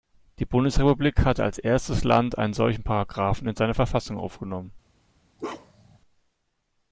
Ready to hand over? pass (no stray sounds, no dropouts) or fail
fail